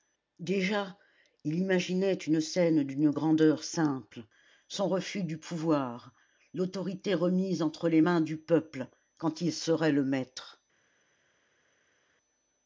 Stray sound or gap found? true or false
false